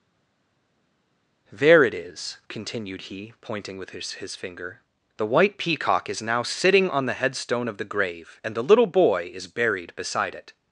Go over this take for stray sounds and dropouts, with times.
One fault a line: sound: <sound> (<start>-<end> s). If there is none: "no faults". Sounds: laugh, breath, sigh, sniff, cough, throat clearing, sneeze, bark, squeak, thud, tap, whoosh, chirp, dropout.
no faults